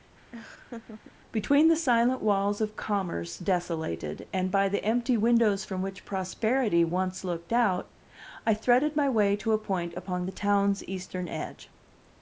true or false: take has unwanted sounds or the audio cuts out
true